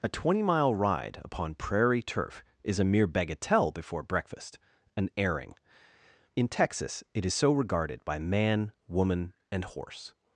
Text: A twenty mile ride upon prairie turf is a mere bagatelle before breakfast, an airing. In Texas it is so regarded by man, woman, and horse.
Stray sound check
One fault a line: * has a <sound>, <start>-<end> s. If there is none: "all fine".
all fine